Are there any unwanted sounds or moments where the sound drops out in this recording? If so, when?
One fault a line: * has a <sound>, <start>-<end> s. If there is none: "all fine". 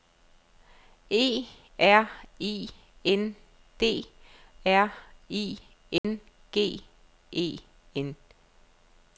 * has a dropout, 6.0-6.0 s